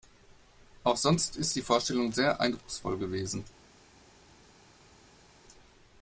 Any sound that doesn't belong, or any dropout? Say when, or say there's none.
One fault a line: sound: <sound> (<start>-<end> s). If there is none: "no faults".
no faults